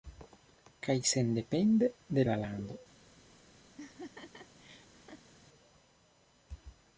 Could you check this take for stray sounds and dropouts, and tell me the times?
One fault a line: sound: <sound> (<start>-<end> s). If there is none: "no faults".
sound: laugh (3.8-5.3 s)